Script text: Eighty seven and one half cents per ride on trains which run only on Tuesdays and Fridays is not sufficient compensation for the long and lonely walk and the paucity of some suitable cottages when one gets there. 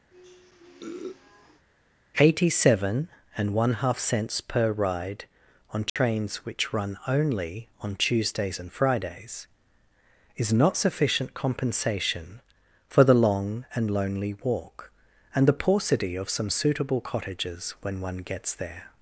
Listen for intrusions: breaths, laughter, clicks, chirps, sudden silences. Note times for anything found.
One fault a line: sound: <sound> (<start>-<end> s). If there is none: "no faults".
sound: sniff (0.1-1.7 s)
sound: dropout (5.9-6.0 s)